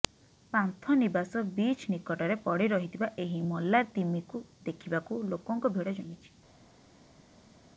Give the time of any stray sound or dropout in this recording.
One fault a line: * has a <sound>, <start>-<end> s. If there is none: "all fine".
all fine